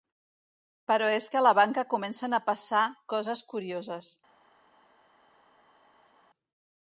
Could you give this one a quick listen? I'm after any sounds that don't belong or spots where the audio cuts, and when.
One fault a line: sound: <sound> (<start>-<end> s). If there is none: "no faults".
no faults